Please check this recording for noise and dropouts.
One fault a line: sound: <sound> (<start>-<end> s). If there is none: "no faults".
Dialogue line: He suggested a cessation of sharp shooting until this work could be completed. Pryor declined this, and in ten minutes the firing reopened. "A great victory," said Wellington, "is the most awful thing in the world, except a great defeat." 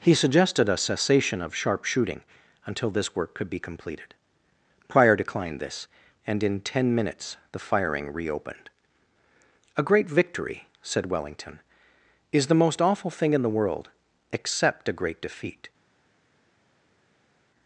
no faults